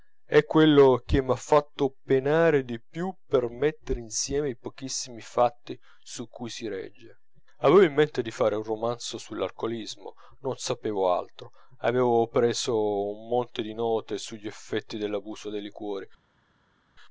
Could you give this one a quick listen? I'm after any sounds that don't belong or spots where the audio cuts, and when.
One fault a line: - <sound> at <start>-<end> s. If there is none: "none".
none